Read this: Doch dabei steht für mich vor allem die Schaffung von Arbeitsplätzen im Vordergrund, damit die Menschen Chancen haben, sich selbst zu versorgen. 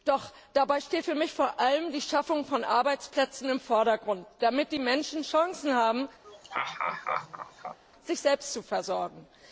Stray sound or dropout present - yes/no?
yes